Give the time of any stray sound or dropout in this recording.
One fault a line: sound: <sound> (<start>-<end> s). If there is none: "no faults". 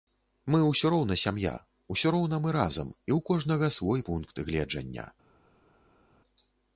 no faults